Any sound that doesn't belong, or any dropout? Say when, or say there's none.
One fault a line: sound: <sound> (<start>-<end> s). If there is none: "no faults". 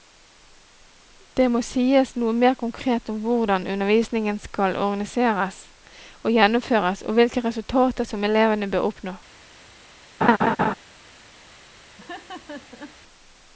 sound: laugh (10.2-10.7 s)
sound: laugh (12.0-13.0 s)